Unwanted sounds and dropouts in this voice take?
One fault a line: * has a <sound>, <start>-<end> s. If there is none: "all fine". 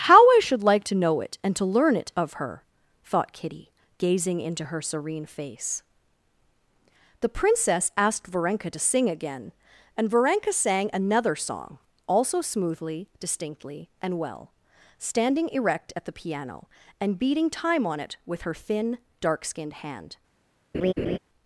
* has a laugh, 20.7-21.2 s